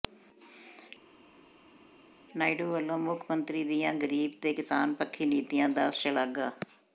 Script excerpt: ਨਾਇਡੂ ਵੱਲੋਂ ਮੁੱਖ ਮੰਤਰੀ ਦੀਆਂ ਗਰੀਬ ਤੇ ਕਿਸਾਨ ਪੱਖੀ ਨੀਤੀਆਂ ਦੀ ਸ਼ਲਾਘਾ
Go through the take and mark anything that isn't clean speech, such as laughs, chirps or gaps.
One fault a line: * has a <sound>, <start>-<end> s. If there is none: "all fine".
all fine